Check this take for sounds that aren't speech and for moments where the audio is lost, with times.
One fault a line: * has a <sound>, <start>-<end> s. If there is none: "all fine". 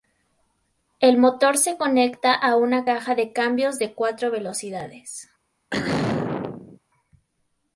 * has a throat clearing, 5.7-6.8 s